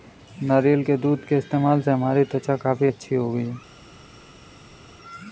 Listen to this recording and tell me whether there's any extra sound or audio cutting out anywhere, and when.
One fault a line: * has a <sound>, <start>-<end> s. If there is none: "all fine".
all fine